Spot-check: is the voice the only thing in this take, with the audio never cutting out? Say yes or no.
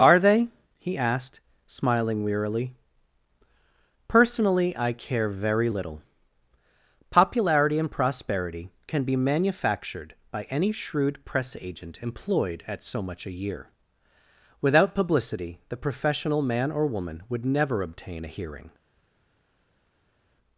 yes